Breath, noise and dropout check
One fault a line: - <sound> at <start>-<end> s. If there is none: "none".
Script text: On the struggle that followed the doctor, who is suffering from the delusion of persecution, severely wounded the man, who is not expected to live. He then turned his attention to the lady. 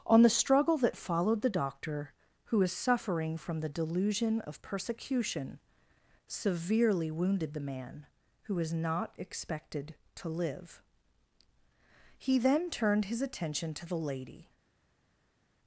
none